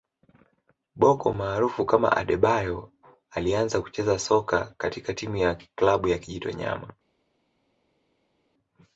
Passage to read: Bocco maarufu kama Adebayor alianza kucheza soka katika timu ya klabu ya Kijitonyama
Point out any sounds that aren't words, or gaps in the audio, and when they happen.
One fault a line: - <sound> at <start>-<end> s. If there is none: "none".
none